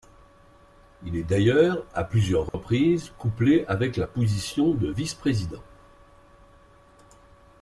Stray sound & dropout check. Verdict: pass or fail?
fail